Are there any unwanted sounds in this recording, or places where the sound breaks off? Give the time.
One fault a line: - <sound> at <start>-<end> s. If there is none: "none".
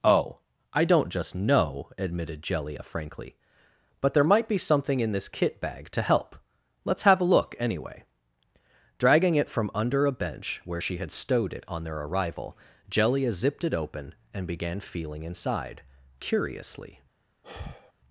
- sigh at 17.4-17.9 s